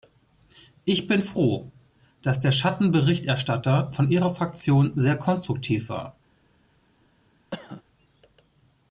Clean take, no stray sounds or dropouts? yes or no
no